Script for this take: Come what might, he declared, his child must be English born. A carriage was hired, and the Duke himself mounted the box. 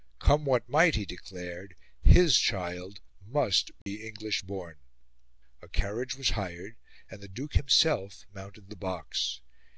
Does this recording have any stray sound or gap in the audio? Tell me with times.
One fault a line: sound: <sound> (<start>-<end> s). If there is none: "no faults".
sound: dropout (3.8-3.9 s)